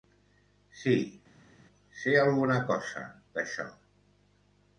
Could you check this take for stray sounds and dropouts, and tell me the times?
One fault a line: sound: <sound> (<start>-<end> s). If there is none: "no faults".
no faults